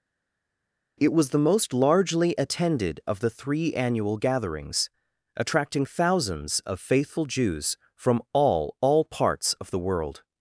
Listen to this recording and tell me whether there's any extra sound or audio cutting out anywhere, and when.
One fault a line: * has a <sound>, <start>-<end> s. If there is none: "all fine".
all fine